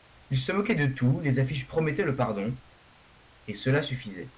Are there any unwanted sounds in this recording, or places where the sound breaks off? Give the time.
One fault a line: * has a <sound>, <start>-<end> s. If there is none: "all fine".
all fine